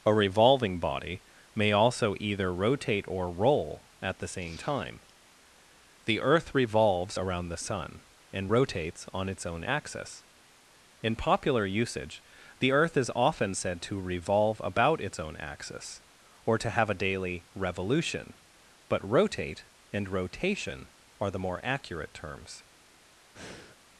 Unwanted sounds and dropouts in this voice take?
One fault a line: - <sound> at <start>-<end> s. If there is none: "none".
- breath at 23.3-23.8 s